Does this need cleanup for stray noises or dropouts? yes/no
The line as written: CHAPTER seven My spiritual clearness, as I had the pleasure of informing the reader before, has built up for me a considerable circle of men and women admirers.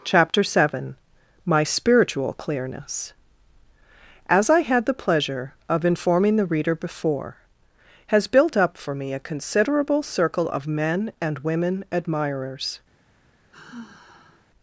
yes